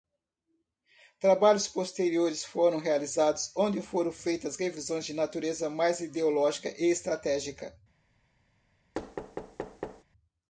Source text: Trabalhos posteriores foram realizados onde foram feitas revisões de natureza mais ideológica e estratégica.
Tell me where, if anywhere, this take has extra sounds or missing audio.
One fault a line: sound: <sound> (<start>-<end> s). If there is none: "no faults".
sound: thud (8.9-10.0 s)